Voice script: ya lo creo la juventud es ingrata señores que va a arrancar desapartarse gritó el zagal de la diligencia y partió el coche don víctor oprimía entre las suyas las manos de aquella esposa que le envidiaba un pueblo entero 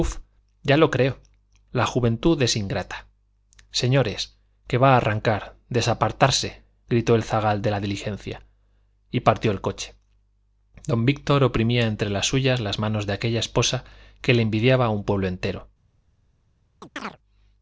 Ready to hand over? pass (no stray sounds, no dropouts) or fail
fail